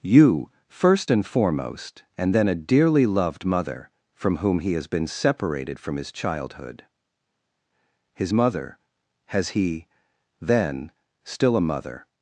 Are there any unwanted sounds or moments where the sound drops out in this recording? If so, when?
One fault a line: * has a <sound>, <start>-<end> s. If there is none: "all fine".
all fine